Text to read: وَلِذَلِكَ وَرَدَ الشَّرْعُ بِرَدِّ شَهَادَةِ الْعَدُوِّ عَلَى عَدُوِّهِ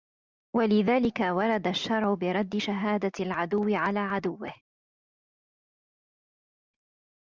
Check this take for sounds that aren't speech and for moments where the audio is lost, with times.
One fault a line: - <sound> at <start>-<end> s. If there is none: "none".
none